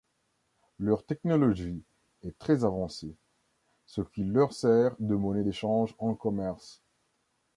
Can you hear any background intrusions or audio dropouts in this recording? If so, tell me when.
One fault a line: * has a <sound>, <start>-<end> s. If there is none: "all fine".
all fine